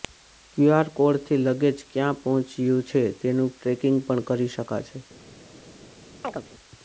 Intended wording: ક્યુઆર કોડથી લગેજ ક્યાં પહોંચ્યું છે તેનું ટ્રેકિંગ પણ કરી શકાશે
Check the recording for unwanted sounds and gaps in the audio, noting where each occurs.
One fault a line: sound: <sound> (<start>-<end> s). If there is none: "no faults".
sound: chirp (6.2-6.4 s)